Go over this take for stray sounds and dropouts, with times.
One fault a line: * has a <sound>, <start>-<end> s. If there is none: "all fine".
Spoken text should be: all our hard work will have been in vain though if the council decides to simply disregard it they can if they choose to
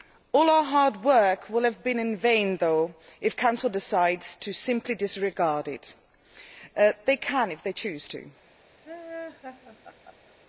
* has a laugh, 8.8-10.3 s